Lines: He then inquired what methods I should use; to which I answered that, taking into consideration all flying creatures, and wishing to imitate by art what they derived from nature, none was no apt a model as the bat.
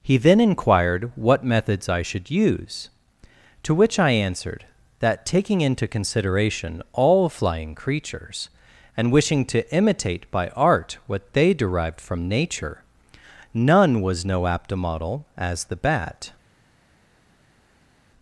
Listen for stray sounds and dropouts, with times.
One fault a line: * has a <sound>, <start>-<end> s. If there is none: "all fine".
all fine